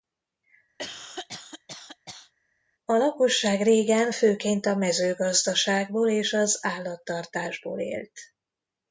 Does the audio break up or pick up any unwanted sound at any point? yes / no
yes